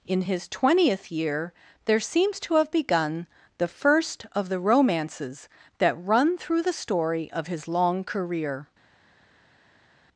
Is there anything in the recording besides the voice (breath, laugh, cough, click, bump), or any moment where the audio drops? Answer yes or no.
no